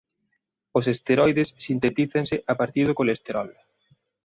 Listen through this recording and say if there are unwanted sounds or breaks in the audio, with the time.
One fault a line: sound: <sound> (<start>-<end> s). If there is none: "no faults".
no faults